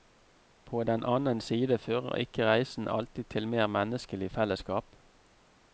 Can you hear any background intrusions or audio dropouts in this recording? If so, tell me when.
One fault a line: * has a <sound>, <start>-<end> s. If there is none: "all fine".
all fine